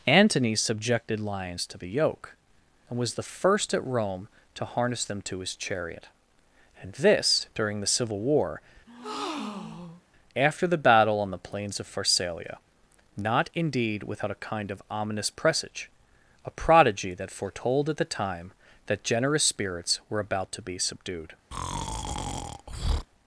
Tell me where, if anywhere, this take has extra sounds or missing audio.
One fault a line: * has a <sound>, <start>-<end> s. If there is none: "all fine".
* has a breath, 8.9-10.0 s
* has a breath, 21.5-23.1 s